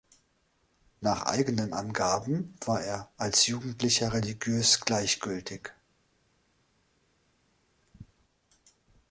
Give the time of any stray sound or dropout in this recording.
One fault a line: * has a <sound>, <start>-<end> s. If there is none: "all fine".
all fine